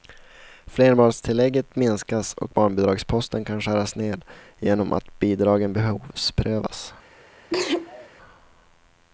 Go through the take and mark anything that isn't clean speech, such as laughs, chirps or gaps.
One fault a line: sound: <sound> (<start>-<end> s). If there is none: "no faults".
sound: sneeze (7.5-8.1 s)